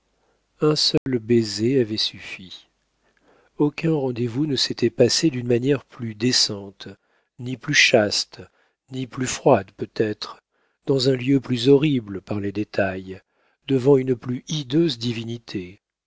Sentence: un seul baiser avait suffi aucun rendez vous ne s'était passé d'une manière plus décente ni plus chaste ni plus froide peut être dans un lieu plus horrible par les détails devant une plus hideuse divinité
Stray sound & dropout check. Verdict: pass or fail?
fail